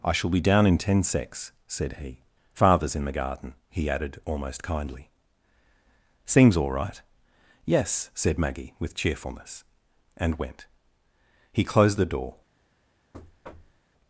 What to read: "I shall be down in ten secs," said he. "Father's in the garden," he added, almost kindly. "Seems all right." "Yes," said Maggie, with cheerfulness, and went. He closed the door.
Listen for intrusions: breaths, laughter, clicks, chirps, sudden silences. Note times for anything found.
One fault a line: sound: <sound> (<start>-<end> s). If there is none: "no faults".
sound: thud (13.1-13.8 s)